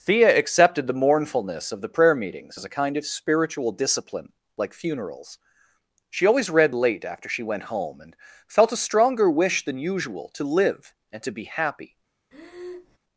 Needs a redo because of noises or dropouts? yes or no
yes